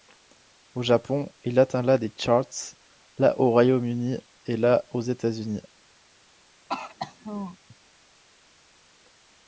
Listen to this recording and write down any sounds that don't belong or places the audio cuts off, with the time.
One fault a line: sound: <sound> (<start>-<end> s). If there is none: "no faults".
sound: throat clearing (6.7-7.6 s)